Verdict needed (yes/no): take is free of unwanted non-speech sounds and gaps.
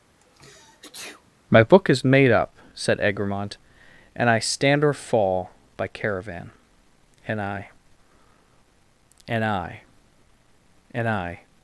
no